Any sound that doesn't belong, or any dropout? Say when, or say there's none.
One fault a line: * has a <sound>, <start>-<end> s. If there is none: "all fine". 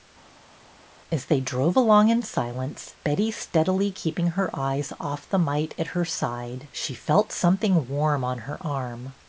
all fine